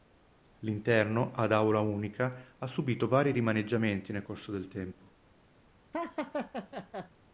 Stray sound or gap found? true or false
true